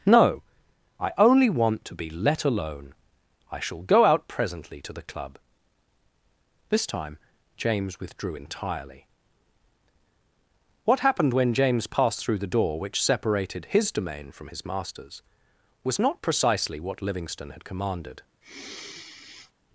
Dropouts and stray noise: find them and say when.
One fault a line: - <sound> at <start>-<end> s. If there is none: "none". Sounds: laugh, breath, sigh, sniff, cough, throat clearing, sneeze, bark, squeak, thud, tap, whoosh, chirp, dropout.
- sigh at 18.4-19.5 s